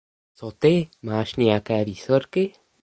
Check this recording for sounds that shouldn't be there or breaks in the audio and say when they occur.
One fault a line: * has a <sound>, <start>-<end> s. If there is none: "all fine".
all fine